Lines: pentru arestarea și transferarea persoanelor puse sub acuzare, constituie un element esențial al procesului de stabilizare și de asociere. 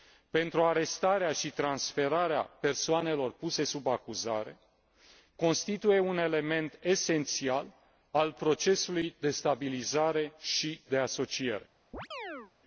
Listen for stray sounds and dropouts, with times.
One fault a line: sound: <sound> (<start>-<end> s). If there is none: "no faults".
sound: chirp (11.9-12.5 s)